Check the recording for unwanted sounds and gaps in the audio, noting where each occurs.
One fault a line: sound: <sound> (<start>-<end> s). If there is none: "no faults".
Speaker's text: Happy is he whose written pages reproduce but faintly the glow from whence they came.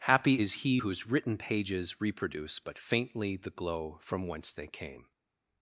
no faults